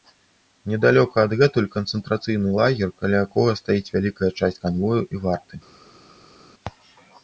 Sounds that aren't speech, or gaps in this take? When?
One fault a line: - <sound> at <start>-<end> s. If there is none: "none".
none